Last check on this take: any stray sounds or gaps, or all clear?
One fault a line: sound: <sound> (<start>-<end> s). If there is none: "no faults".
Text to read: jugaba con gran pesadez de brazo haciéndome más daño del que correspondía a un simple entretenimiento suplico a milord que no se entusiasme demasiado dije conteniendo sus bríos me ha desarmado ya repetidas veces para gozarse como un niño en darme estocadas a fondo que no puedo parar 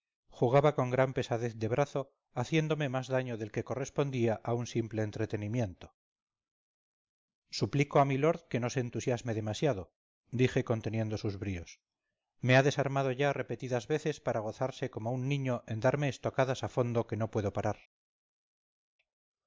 no faults